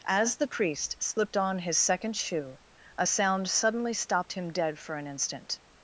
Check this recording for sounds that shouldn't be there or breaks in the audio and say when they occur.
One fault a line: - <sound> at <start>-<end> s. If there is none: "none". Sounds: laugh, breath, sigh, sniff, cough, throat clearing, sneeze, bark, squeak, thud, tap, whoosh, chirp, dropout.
none